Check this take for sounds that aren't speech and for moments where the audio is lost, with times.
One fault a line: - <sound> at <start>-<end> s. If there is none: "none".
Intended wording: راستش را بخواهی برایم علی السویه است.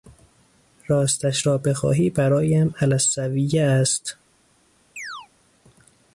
- chirp at 5.0-5.3 s